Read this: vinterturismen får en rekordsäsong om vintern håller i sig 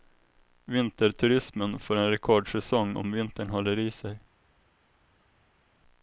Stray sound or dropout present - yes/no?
no